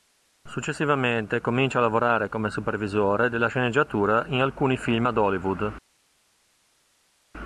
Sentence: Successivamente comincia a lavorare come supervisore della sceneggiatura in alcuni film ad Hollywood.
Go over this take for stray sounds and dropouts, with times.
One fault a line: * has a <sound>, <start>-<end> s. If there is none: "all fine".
all fine